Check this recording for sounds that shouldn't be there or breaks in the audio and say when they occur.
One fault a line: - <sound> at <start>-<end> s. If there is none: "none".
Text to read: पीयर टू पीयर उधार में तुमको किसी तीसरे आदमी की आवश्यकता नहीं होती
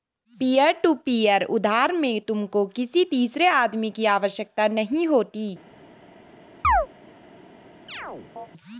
- chirp at 6.6-6.9 s
- chirp at 7.9-8.5 s